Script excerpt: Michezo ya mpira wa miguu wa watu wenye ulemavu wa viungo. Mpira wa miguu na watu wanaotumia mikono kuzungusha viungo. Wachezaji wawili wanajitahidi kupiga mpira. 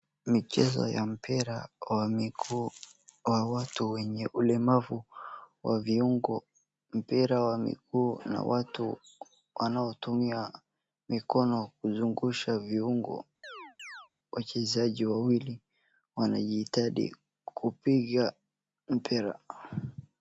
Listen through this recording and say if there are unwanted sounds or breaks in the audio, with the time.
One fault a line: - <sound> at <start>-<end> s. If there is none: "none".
- chirp at 13.4-14.1 s